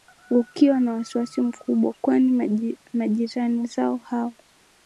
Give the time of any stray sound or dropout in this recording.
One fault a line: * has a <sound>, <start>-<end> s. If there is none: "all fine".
all fine